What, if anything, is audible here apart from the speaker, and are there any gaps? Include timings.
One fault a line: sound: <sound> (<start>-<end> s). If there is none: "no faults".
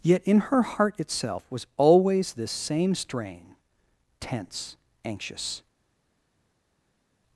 no faults